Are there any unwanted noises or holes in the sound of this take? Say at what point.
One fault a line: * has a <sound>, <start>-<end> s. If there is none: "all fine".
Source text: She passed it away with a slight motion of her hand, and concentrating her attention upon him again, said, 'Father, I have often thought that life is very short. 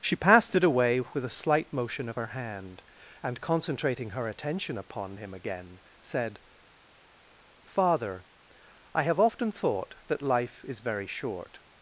all fine